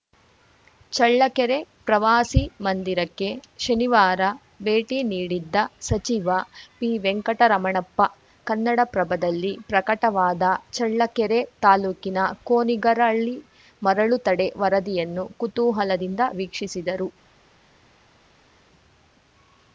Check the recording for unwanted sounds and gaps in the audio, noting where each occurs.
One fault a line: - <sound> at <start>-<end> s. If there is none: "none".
none